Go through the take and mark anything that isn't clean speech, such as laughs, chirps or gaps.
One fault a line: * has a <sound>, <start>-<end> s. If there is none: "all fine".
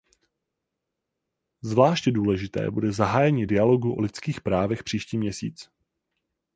all fine